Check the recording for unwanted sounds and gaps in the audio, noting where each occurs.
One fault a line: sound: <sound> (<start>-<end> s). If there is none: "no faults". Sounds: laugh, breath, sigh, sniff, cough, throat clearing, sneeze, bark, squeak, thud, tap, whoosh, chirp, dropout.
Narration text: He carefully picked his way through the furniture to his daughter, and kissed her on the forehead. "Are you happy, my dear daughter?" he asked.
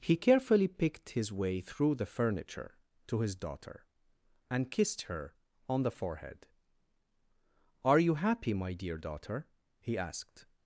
no faults